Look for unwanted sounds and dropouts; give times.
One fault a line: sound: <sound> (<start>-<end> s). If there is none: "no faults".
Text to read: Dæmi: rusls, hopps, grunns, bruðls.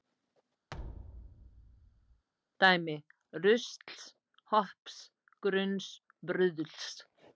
sound: thud (0.7-2.3 s)